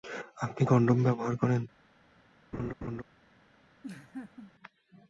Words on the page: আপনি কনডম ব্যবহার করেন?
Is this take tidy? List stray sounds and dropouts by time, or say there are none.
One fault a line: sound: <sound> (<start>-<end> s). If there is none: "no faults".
sound: laugh (2.5-3.0 s)
sound: laugh (3.8-4.5 s)